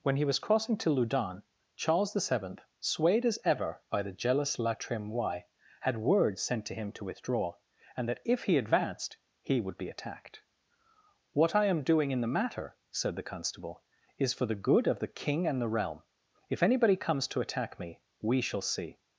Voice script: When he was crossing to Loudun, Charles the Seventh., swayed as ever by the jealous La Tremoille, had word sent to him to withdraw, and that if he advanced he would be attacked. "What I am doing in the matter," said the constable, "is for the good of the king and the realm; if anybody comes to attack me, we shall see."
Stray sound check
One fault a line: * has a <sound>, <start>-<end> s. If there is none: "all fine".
all fine